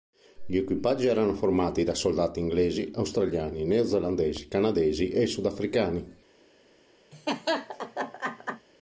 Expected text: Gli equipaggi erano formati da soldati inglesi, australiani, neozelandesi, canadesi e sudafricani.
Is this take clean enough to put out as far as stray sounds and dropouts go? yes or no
no